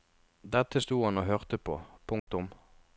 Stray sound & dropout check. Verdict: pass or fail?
fail